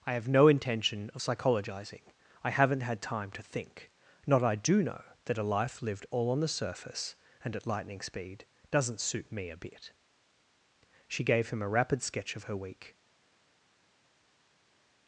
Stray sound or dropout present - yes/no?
no